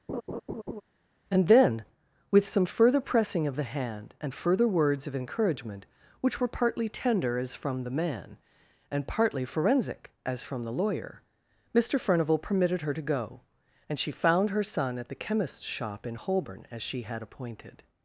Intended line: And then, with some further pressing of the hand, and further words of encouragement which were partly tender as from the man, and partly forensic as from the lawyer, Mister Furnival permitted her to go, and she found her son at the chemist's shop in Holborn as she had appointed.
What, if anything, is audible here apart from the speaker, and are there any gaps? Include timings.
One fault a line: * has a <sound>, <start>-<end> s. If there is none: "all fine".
* has a laugh, 0.1-0.8 s